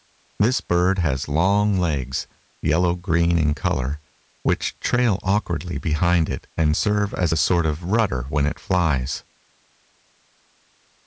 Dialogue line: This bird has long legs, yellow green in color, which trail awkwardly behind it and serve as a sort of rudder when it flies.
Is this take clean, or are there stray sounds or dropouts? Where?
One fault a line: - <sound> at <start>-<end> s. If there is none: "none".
none